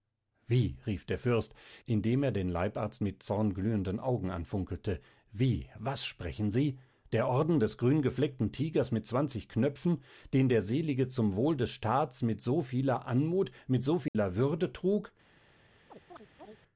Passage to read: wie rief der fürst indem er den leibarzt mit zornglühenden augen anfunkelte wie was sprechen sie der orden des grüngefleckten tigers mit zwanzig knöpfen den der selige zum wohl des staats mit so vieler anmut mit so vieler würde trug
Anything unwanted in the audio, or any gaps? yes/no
yes